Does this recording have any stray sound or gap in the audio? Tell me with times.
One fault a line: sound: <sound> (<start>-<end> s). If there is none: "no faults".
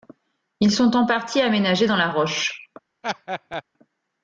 sound: laugh (3.0-3.6 s)